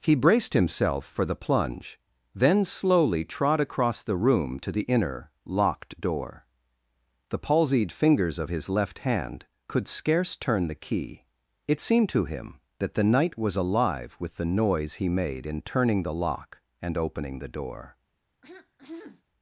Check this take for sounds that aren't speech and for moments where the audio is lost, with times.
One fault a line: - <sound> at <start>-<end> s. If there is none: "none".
- throat clearing at 18.4-19.2 s